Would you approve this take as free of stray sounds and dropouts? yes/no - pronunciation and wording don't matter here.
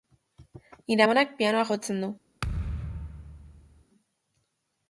no